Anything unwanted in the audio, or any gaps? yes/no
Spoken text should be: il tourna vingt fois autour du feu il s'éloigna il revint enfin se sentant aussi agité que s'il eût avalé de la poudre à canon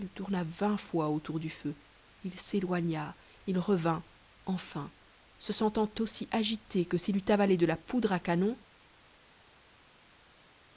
no